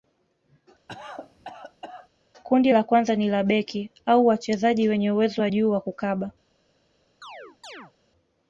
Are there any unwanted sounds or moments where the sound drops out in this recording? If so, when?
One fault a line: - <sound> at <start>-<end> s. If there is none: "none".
- cough at 0.9-2.1 s
- chirp at 7.2-7.9 s